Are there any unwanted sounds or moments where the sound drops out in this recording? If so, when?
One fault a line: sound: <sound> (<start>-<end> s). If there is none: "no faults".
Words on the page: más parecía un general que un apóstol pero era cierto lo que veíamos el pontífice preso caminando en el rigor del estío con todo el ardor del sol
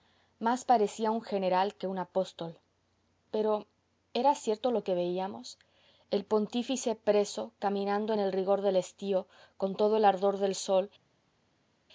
no faults